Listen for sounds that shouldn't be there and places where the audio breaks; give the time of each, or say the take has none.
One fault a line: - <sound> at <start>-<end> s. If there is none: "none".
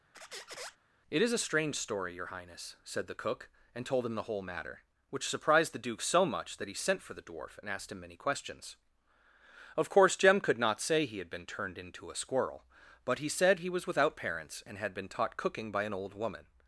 - squeak at 0.1-0.8 s